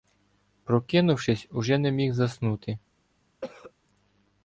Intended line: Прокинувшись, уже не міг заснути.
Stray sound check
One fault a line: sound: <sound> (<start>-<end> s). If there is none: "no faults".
sound: cough (3.4-3.7 s)